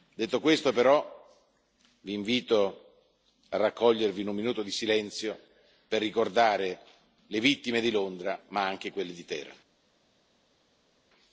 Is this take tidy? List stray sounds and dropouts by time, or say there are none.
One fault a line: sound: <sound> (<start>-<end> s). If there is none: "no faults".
no faults